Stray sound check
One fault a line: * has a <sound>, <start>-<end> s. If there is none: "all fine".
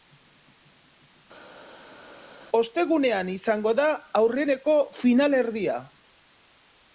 all fine